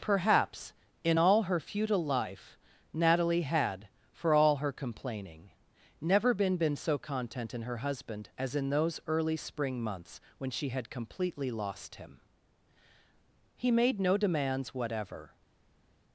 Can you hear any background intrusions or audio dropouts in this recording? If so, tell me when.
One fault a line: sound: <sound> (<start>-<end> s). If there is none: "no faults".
no faults